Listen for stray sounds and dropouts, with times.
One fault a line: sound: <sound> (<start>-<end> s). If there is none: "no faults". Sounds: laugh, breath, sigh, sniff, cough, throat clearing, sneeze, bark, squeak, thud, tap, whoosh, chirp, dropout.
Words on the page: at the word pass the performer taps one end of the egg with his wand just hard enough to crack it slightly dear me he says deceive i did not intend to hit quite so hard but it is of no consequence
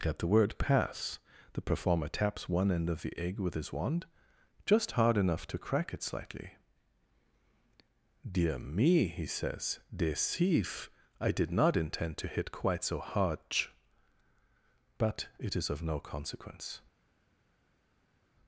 no faults